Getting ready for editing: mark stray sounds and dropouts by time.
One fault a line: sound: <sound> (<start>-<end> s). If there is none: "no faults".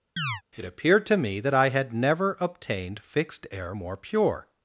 sound: chirp (0.2-0.4 s)